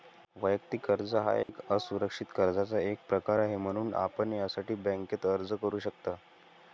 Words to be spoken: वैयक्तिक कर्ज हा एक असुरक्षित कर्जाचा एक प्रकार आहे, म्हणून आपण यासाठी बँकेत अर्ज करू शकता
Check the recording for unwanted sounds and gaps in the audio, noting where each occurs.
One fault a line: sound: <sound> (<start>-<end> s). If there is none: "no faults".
sound: dropout (1.4-1.5 s)